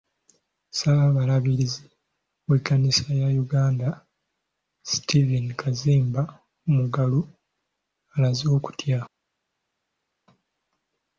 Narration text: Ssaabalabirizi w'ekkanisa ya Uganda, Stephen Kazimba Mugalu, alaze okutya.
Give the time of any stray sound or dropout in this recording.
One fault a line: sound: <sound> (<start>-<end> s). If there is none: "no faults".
no faults